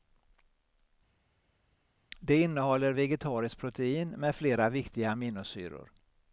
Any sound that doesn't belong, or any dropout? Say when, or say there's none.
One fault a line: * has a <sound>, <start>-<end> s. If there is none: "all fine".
all fine